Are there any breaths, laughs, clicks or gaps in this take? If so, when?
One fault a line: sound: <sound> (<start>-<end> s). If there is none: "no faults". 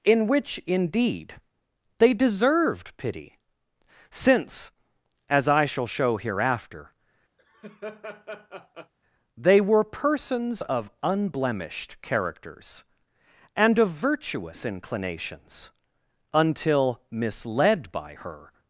sound: laugh (7.4-8.9 s)